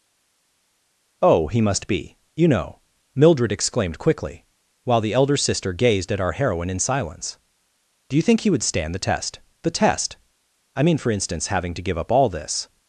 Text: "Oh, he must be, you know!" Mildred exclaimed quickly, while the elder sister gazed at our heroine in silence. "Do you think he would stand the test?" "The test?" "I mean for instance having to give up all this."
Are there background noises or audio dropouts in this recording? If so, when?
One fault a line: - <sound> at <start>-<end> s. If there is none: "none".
none